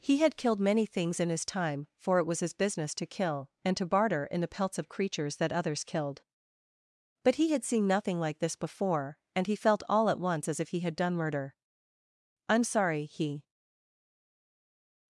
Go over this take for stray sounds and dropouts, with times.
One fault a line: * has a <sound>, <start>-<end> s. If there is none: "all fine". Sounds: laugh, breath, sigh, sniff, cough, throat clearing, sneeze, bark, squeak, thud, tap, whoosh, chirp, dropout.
all fine